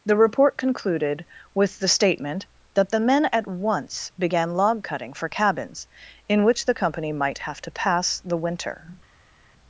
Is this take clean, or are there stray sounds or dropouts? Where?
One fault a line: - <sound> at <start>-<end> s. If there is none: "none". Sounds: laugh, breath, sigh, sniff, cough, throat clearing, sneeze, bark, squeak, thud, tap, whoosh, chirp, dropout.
none